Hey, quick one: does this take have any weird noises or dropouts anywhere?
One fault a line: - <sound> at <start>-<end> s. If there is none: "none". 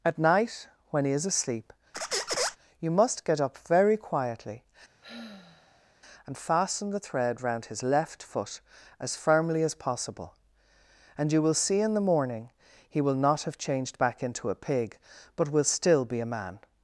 - squeak at 1.9-2.6 s
- sigh at 5.0-6.0 s